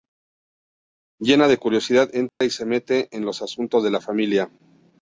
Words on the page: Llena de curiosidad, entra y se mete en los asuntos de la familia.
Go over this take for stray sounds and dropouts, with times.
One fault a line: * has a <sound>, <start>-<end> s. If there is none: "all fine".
* has a dropout, 2.3-2.4 s